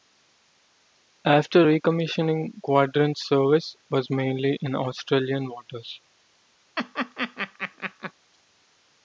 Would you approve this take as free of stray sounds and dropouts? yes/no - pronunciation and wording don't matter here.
no